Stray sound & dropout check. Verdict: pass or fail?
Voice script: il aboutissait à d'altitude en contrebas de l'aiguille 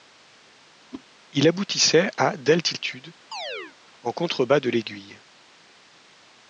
fail